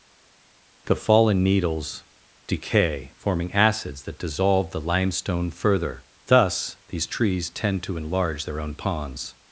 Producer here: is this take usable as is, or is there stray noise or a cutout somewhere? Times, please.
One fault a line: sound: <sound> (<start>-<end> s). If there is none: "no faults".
no faults